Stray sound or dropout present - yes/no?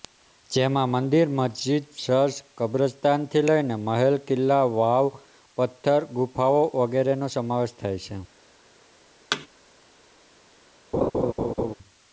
yes